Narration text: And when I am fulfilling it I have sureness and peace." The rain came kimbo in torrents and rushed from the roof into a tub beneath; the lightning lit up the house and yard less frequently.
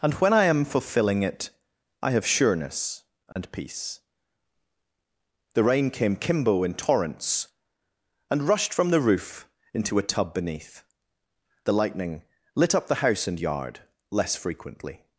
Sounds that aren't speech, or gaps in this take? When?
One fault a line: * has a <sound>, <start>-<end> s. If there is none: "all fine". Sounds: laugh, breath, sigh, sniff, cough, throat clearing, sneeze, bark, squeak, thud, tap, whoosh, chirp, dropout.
* has a dropout, 3.3-3.4 s